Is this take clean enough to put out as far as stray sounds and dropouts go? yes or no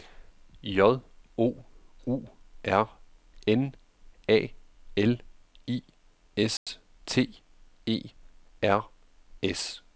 no